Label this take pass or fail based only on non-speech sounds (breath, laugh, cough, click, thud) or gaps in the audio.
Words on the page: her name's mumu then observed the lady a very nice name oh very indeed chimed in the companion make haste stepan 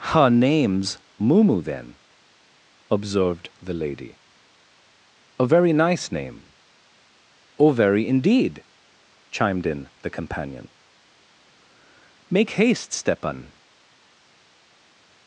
pass